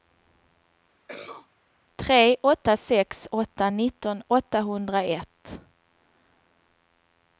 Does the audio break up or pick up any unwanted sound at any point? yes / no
yes